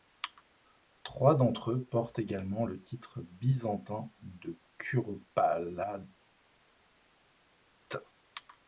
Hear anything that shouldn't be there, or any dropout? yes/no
no